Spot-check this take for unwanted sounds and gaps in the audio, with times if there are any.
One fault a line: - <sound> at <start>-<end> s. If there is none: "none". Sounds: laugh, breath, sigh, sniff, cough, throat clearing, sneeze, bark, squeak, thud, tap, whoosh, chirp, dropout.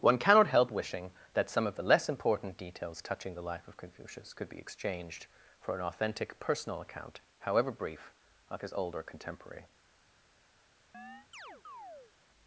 - chirp at 10.9-12.1 s